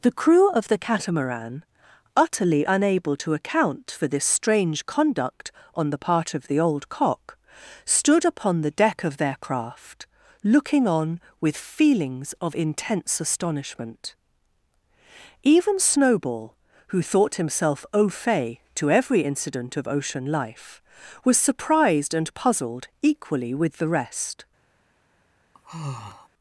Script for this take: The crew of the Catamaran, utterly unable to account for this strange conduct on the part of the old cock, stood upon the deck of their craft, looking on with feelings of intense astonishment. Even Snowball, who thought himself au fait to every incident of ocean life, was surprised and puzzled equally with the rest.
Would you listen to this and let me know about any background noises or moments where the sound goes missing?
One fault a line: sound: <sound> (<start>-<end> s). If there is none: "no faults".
sound: sigh (25.5-26.3 s)